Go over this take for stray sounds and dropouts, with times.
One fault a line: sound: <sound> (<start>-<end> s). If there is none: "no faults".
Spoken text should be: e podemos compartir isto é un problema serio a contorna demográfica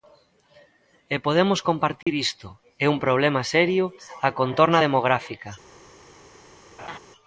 sound: dropout (2.0-2.1 s)
sound: laugh (6.8-7.0 s)